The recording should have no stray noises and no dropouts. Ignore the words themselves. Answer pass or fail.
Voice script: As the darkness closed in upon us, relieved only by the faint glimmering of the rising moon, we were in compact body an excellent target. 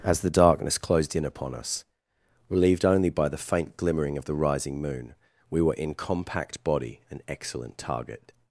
pass